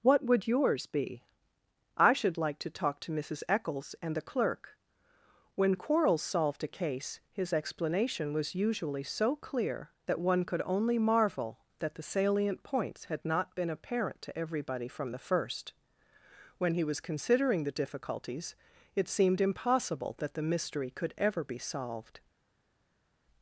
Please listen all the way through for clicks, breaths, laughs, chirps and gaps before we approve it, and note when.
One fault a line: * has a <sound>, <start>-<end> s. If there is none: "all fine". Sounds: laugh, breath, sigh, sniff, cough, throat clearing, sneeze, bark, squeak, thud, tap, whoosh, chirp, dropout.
all fine